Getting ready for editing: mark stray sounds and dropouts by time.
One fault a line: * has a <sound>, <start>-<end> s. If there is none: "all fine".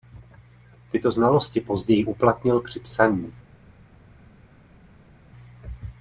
all fine